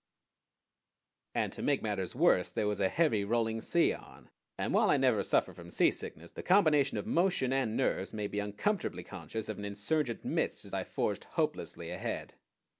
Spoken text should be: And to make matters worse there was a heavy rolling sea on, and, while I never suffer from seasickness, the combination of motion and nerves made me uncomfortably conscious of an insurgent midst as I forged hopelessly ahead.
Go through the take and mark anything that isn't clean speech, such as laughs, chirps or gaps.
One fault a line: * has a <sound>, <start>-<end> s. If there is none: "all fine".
all fine